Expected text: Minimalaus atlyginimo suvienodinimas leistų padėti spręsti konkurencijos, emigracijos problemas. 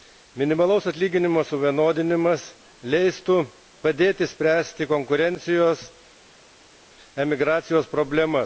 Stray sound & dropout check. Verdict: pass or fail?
pass